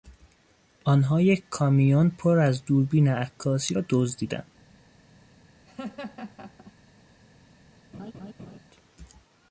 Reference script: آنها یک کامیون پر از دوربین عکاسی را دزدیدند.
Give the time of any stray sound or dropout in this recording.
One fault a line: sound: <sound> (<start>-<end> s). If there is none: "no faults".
sound: laugh (5.6-6.7 s)
sound: laugh (7.9-8.6 s)